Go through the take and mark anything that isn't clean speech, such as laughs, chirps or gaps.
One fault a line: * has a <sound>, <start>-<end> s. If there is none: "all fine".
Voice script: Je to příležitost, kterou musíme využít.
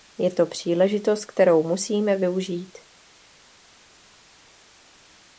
all fine